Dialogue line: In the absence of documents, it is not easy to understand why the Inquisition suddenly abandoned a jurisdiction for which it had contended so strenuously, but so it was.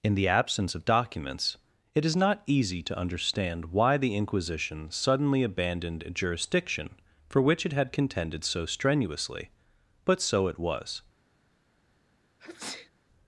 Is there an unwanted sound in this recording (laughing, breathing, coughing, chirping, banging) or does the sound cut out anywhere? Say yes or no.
yes